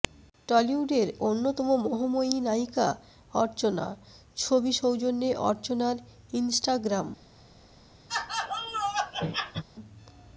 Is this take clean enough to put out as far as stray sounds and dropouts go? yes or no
no